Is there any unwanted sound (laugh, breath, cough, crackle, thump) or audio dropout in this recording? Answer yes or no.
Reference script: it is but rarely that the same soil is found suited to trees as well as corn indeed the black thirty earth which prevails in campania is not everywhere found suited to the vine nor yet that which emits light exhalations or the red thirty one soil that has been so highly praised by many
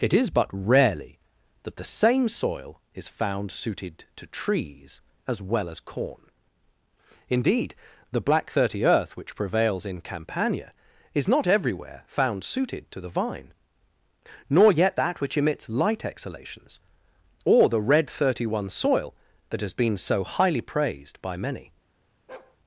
yes